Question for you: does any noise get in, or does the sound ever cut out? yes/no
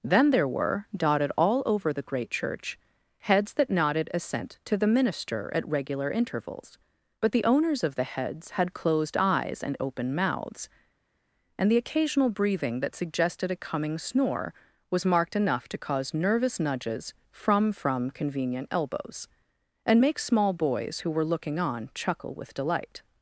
no